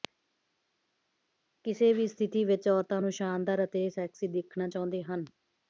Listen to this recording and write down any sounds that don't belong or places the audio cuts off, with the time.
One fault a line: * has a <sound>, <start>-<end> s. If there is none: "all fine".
all fine